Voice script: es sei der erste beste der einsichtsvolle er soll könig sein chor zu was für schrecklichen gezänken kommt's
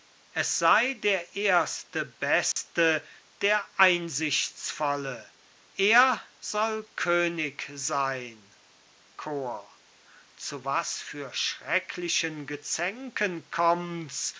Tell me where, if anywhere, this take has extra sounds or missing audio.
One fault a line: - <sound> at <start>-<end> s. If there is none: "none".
- dropout at 2.5-2.6 s